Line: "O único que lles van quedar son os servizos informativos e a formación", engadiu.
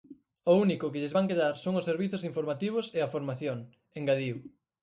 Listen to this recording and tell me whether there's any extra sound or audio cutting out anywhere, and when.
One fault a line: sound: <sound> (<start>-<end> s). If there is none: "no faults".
no faults